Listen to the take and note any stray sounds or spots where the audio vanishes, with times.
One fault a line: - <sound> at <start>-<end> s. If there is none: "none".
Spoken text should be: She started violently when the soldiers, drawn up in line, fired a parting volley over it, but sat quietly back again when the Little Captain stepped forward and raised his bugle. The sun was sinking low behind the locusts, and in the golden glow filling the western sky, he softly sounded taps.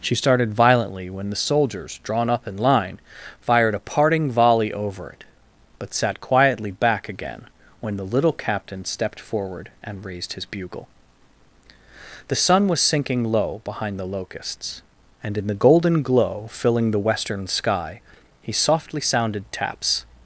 none